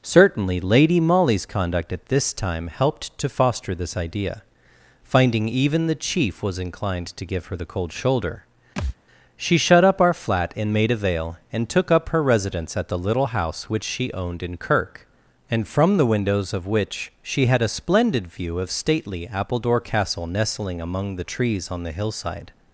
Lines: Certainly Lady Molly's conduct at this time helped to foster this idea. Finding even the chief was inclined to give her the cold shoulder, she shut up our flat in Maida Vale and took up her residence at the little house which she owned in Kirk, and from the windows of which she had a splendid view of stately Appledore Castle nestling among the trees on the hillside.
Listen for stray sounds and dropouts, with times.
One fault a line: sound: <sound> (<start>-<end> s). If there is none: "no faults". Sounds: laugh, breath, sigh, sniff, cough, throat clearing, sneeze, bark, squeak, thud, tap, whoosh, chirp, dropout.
sound: thud (8.8-9.0 s)